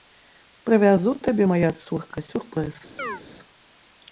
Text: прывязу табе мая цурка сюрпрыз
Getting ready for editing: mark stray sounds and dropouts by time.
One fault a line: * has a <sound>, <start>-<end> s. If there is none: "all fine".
* has a chirp, 3.0-3.2 s